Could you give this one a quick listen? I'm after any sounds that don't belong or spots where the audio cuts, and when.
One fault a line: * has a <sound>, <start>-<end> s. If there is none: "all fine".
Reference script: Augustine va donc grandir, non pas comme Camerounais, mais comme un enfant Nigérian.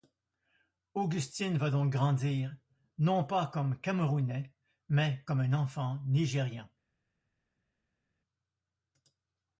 all fine